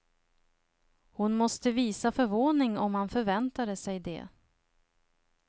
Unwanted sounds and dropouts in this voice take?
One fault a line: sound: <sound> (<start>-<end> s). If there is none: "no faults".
no faults